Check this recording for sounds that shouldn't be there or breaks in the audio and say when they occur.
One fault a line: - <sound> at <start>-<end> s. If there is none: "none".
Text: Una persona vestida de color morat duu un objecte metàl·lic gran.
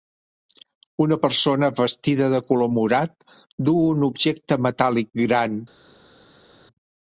none